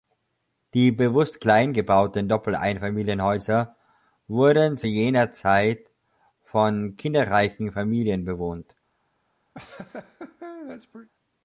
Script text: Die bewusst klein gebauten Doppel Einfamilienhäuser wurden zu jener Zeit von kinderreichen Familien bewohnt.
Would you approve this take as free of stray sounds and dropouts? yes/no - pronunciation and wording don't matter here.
no